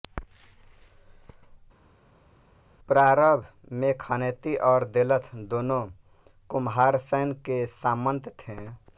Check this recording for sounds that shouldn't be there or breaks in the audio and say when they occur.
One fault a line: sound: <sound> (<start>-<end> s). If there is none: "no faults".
no faults